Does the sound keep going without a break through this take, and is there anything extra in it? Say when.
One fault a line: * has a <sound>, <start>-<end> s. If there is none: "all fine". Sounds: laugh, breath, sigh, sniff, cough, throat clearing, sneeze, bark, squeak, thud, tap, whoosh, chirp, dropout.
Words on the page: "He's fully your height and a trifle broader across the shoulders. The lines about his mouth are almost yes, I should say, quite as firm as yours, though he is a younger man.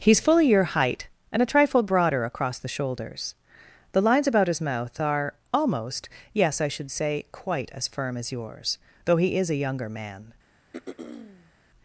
* has a throat clearing, 10.7-11.5 s